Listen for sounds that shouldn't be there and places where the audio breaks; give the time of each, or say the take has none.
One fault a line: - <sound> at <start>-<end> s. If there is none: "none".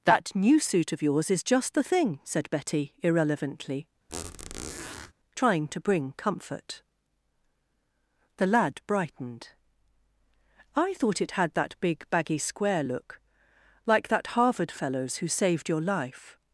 - squeak at 4.1-5.1 s